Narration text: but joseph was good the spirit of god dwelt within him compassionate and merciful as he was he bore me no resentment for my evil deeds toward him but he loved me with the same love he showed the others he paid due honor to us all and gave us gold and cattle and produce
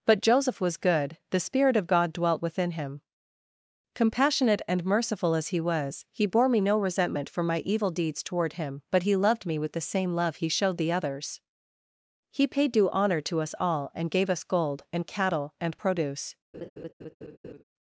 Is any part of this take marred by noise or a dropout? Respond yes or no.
yes